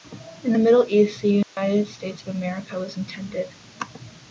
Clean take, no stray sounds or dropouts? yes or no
no